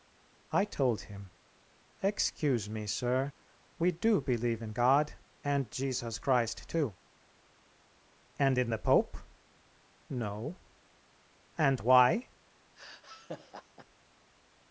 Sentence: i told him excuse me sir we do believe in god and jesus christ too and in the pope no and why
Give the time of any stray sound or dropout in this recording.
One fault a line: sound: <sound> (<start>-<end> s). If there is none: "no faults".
sound: laugh (12.8-13.9 s)